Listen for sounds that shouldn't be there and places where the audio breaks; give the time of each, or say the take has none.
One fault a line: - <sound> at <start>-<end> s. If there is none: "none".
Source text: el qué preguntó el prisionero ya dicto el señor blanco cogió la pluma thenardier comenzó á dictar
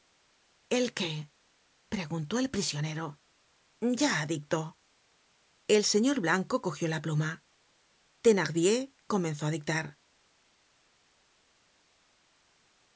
none